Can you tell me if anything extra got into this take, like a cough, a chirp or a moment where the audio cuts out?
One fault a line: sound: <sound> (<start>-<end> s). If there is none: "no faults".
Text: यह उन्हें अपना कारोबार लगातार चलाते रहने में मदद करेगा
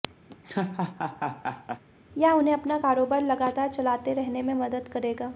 sound: laugh (0.3-1.8 s)